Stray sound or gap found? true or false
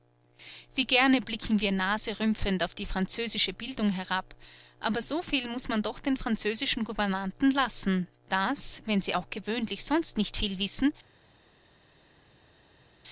false